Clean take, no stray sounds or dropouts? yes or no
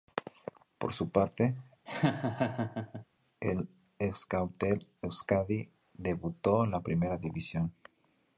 no